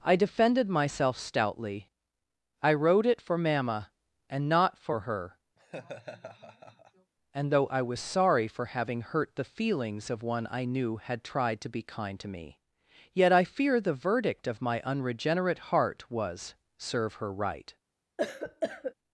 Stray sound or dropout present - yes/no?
yes